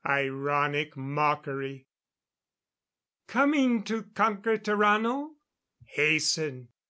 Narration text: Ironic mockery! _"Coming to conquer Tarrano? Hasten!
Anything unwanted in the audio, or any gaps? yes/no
no